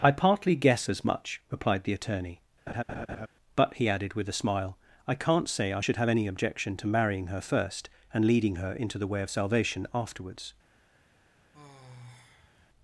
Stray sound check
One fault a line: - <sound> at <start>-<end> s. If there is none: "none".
- laugh at 2.7-3.3 s
- sigh at 11.5-12.7 s